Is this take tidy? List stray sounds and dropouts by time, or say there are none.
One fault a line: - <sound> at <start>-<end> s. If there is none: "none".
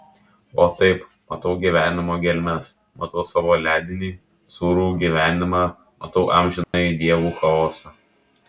- dropout at 6.6-6.7 s